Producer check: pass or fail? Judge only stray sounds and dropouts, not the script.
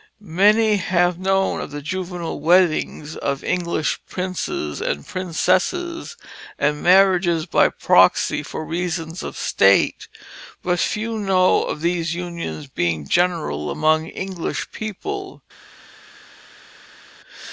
pass